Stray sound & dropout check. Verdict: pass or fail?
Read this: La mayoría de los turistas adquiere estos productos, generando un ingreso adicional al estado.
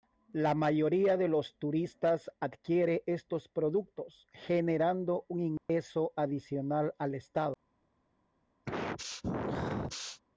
fail